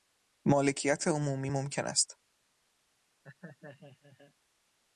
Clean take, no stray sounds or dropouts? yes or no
no